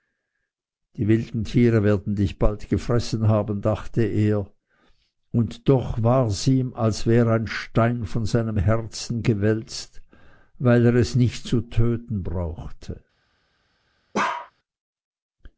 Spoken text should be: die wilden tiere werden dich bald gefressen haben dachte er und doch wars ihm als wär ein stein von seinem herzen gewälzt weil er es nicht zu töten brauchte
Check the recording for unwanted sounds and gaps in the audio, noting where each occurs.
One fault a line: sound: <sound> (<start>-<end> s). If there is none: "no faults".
sound: bark (14.1-14.5 s)